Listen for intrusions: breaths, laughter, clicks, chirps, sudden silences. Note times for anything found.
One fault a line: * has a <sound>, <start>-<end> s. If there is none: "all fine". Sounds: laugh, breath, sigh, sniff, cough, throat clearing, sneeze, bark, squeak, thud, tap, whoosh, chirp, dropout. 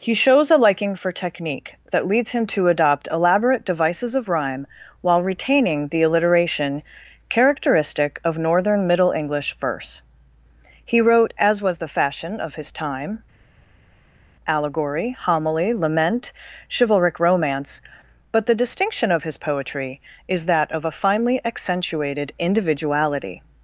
all fine